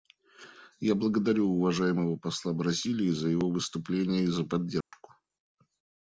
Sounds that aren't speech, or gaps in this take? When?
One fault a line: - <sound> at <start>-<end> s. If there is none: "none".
- dropout at 4.8-4.9 s